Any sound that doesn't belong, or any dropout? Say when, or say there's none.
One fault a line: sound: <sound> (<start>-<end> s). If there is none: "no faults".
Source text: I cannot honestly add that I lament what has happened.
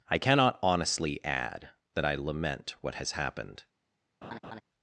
sound: laugh (4.2-4.6 s)